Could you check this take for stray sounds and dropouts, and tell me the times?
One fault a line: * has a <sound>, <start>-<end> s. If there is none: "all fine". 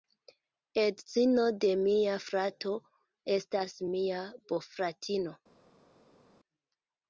all fine